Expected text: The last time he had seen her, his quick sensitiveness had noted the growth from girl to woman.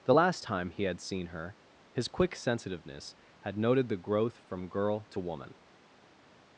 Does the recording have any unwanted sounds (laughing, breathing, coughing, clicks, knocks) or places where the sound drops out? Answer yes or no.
no